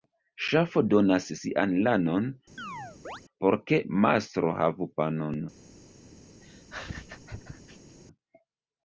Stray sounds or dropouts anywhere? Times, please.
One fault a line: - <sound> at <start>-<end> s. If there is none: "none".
- chirp at 2.6-3.2 s
- laugh at 6.4-8.0 s